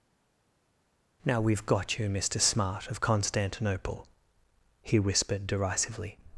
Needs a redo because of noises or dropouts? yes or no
no